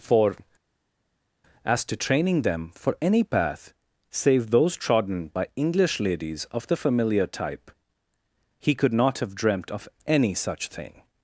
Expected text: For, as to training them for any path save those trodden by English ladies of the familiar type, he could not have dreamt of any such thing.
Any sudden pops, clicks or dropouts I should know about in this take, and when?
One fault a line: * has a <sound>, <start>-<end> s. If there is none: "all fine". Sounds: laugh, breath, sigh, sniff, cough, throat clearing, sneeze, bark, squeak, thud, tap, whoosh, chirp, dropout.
all fine